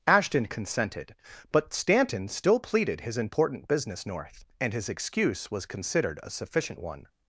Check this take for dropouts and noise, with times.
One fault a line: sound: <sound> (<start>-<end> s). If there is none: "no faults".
no faults